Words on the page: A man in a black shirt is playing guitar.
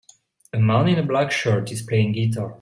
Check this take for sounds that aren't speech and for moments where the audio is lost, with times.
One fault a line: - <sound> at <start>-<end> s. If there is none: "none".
none